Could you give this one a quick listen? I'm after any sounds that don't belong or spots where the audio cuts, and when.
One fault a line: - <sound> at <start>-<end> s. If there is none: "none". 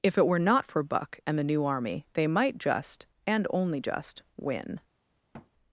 - thud at 5.3-5.5 s